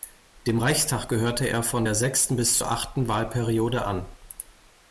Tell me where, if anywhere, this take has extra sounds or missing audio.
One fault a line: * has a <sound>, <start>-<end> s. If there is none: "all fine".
all fine